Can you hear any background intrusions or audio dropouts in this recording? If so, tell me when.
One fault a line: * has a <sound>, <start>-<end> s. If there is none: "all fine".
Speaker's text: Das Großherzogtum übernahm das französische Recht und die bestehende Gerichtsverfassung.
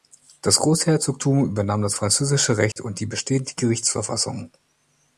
* has a dropout, 2.7-2.8 s